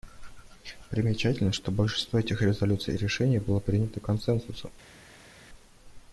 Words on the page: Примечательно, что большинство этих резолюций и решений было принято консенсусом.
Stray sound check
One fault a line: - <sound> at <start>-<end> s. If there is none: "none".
none